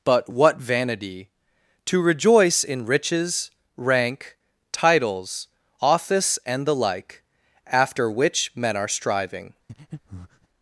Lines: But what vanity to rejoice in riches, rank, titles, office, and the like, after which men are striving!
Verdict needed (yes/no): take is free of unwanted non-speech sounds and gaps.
no